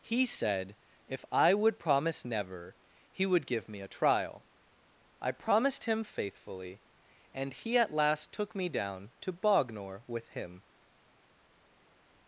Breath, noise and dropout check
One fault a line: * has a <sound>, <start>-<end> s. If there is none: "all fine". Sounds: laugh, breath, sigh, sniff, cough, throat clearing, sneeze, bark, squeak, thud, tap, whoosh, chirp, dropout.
all fine